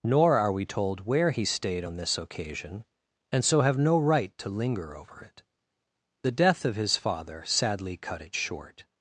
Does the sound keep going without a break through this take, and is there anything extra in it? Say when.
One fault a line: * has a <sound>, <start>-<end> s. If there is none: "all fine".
all fine